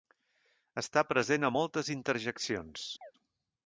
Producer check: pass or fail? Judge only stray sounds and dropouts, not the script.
fail